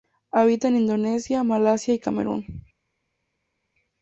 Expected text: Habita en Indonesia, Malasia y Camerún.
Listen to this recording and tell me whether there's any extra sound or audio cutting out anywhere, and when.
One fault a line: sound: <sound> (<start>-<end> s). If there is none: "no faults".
no faults